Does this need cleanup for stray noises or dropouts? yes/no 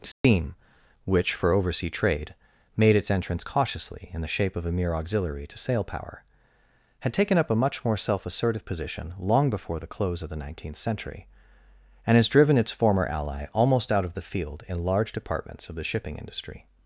yes